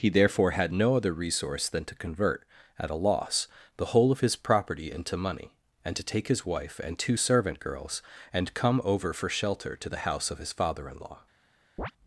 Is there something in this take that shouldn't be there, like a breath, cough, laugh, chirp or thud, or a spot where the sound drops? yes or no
yes